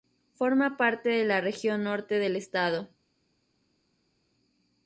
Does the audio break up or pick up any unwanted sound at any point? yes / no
no